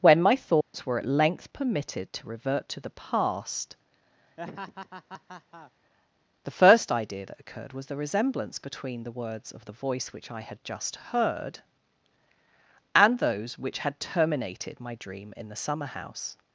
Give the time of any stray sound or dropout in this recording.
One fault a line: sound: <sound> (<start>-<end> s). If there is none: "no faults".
sound: dropout (0.6-0.7 s)
sound: laugh (4.4-5.7 s)